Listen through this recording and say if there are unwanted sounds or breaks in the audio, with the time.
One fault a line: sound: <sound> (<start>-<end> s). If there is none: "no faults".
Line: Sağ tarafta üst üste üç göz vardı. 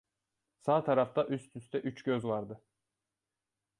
no faults